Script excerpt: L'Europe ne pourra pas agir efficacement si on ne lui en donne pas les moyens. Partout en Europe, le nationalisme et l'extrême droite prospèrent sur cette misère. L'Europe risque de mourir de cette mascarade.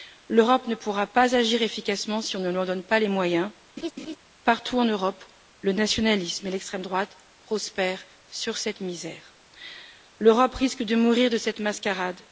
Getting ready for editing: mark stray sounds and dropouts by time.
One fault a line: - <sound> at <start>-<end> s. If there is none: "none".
- laugh at 3.8-4.2 s